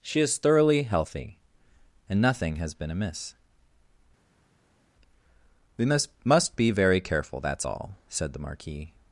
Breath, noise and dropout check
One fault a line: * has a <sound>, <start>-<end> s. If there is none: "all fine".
all fine